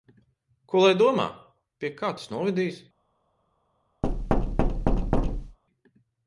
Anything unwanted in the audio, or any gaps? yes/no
yes